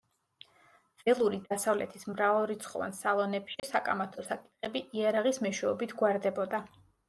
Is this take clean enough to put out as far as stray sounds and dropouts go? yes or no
no